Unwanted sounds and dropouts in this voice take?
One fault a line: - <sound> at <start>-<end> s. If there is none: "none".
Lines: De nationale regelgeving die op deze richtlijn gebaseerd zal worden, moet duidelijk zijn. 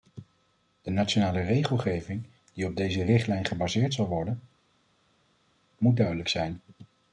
none